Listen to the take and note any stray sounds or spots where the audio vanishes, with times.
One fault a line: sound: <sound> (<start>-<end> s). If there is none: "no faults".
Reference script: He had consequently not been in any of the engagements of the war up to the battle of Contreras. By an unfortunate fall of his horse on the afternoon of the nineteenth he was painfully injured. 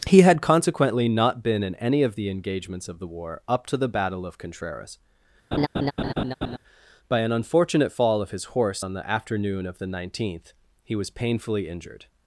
sound: laugh (5.5-6.6 s)